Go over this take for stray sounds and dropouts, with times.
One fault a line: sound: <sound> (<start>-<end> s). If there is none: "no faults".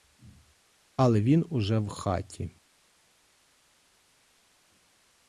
no faults